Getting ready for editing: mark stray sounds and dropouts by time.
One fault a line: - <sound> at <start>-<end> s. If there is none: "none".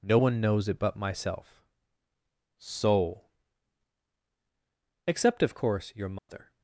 - dropout at 6.2-6.3 s